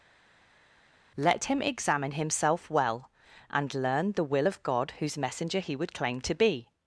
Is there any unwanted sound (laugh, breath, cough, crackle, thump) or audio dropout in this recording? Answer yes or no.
no